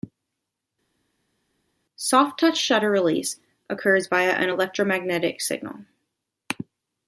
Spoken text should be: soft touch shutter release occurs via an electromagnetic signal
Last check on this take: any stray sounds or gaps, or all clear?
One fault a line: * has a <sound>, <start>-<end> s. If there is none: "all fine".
all fine